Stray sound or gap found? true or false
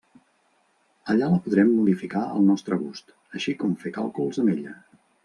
false